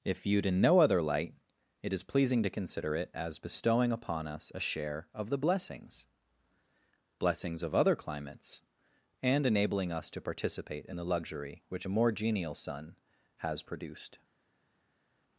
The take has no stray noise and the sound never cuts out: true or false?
true